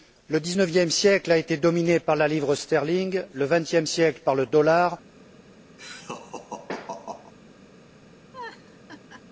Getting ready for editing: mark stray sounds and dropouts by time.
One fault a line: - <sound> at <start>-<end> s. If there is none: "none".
- laugh at 5.8-7.3 s
- laugh at 8.3-9.2 s